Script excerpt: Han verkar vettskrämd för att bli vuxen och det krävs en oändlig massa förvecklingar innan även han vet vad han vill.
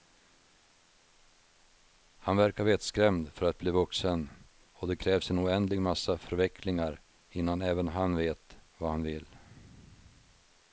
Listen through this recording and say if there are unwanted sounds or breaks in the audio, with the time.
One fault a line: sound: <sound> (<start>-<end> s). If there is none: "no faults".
no faults